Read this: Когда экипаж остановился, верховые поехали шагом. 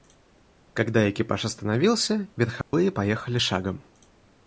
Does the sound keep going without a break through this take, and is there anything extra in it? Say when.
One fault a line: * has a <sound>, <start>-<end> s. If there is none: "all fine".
* has a dropout, 2.6-2.7 s